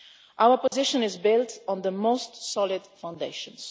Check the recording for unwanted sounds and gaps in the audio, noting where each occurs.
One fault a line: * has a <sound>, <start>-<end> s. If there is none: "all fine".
* has a dropout, 0.7-0.7 s